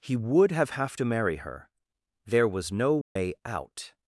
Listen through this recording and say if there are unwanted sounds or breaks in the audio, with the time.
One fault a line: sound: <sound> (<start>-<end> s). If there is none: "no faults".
sound: dropout (3.0-3.2 s)